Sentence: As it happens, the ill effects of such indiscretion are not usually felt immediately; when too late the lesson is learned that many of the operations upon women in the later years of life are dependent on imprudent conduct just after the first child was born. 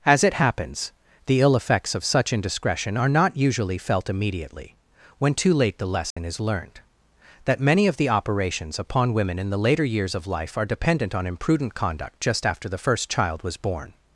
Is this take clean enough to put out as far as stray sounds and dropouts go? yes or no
no